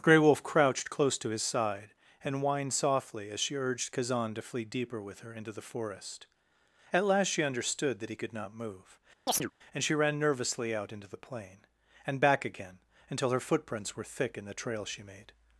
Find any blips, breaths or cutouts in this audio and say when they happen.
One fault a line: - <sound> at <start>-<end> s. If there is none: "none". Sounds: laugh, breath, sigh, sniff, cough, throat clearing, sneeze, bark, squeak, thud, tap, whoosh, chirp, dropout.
- chirp at 9.3-9.5 s